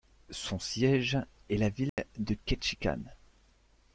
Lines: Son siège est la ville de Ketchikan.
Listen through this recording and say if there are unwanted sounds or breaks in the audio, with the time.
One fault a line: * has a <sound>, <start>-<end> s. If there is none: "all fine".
* has a dropout, 1.9-2.0 s